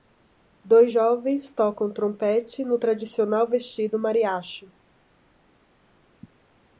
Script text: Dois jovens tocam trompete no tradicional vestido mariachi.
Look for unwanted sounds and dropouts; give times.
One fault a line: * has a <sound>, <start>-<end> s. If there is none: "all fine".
all fine